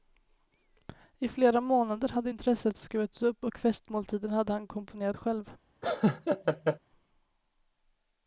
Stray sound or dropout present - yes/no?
yes